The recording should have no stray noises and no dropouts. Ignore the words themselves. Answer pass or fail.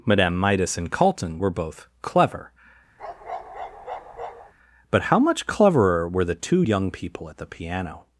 fail